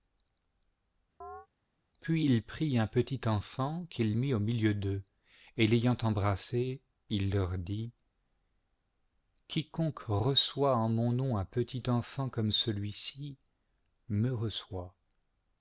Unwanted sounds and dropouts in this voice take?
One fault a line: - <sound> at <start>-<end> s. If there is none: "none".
- chirp at 1.2-1.5 s